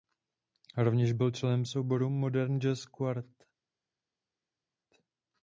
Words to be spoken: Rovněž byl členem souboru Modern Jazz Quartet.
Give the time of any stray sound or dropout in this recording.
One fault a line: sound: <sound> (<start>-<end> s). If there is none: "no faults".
no faults